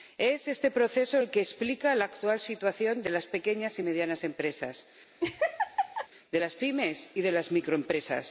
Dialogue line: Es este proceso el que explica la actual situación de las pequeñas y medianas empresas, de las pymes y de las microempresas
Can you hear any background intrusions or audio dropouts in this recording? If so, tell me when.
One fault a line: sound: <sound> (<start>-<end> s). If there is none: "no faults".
sound: laugh (5.2-6.1 s)